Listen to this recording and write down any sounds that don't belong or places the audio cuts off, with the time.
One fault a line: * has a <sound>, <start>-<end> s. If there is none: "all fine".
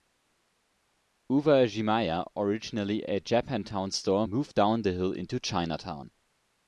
all fine